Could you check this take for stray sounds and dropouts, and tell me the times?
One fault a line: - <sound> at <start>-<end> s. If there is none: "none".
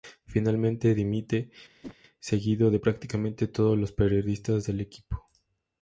- whoosh at 1.8-2.0 s